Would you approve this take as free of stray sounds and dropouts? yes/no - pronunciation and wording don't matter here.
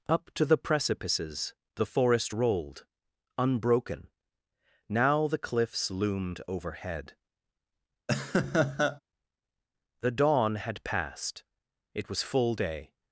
no